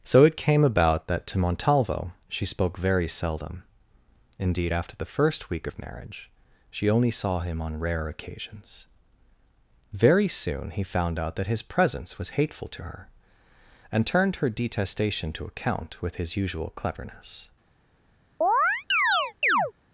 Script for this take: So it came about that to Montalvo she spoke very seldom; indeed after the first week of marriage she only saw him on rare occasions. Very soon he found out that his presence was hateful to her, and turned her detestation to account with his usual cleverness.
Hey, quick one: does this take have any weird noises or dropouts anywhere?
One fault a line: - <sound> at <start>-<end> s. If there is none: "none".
- chirp at 18.4-19.7 s